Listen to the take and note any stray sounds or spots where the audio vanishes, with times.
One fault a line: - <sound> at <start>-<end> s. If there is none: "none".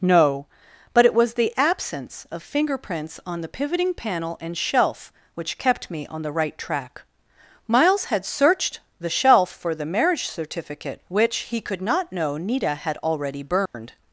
- dropout at 13.7-13.7 s